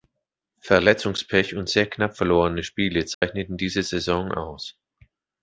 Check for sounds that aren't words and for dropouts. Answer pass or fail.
fail